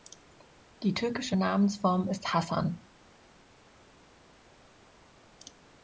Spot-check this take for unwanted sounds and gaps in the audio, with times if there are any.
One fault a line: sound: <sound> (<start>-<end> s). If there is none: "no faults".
no faults